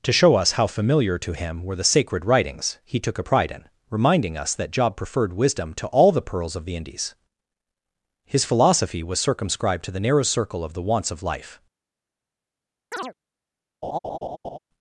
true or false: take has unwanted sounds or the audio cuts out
true